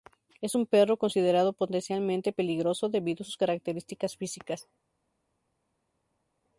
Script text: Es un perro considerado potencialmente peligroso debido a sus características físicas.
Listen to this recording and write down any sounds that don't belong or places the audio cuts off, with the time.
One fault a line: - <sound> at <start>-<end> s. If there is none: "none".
none